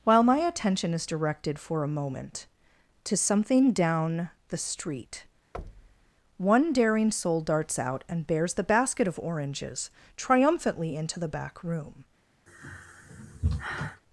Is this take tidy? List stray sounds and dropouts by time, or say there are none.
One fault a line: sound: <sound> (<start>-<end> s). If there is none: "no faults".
sound: thud (5.5-6.1 s)
sound: sigh (12.5-14.0 s)